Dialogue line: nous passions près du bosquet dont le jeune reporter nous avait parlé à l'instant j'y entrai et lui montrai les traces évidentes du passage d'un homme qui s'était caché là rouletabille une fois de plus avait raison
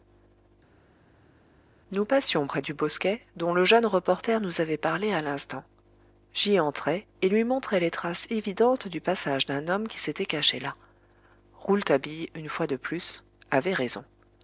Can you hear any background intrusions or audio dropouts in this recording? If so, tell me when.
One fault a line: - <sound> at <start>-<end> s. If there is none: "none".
none